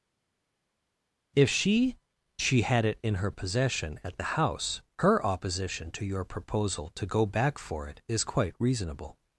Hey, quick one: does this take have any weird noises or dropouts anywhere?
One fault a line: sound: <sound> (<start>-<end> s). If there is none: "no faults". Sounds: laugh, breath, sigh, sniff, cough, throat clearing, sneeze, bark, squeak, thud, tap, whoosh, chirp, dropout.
no faults